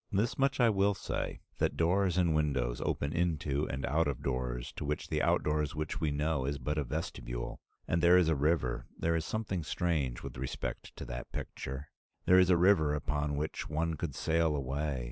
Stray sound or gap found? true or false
false